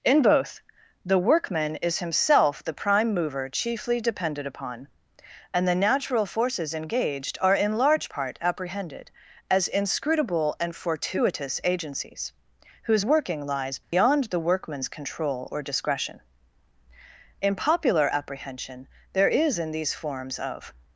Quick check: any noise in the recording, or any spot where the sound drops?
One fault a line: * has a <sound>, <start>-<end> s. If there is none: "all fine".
* has a dropout, 13.8-13.9 s